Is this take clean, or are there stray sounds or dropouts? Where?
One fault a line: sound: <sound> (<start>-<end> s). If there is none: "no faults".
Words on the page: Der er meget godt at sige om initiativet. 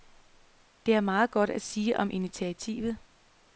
no faults